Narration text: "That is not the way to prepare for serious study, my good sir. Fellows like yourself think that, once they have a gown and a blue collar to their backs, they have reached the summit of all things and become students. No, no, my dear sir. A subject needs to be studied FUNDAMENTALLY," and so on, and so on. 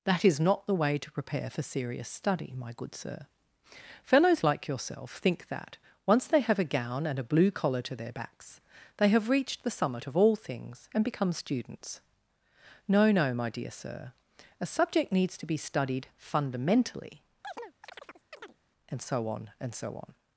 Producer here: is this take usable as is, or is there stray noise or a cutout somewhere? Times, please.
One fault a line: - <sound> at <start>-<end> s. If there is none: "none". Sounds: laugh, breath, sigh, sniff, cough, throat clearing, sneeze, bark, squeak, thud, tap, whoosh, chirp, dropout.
- chirp at 17.4-18.6 s